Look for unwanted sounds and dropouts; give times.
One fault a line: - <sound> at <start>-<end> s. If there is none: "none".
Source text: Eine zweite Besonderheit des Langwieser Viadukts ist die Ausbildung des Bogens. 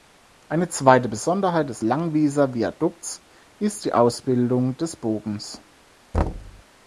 - thud at 6.1-6.6 s